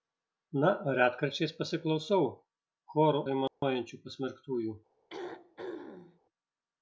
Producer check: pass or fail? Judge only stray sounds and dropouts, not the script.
fail